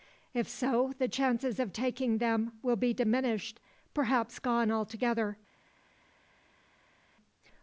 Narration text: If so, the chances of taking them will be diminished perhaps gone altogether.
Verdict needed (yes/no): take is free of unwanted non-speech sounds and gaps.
yes